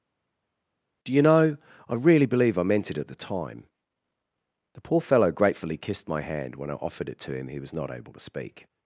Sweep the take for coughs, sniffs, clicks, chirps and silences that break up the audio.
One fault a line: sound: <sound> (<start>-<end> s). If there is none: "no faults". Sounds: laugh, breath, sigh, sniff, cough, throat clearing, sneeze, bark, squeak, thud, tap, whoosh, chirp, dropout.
no faults